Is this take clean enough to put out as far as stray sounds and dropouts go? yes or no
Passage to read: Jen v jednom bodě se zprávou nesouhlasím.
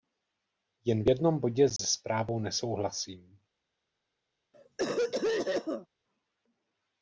no